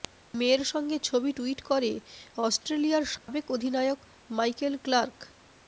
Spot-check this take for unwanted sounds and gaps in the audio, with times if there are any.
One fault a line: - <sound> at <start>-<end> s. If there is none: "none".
- dropout at 3.2-3.3 s